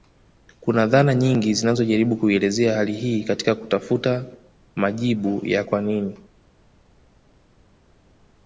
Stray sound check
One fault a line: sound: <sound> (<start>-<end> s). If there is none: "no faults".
no faults